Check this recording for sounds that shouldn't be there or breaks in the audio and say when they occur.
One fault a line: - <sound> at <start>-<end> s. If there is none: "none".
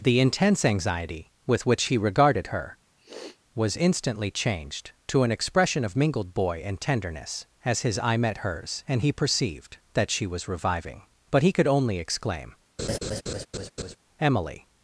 - sniff at 3.0-3.4 s
- laugh at 12.8-14.0 s